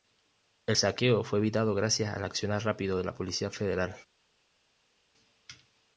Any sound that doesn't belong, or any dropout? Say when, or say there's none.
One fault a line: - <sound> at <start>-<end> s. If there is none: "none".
none